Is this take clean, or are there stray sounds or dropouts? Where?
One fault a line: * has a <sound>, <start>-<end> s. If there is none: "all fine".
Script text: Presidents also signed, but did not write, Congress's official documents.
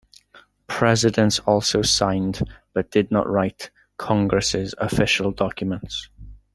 all fine